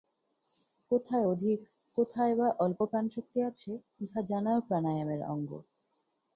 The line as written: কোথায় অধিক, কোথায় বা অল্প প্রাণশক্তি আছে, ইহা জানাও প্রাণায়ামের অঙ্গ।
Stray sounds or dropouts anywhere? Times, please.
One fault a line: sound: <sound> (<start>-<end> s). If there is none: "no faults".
no faults